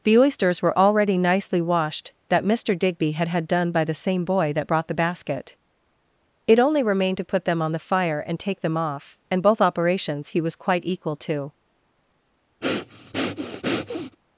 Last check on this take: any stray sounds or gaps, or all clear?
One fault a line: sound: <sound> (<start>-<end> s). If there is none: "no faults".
sound: breath (12.6-14.2 s)